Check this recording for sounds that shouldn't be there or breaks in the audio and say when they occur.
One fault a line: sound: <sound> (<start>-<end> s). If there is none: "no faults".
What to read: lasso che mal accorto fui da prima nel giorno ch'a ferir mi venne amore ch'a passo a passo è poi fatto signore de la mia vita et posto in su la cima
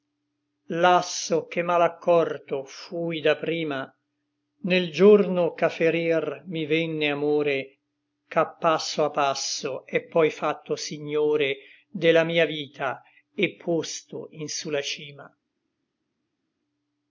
no faults